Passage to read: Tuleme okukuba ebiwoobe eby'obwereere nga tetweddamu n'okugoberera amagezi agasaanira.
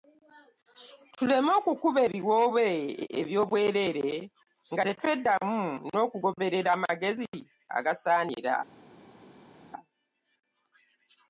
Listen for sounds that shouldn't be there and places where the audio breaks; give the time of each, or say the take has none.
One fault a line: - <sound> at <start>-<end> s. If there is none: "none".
none